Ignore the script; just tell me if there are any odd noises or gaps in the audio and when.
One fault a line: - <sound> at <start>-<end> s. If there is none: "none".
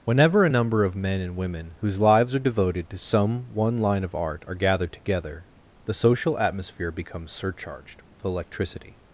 none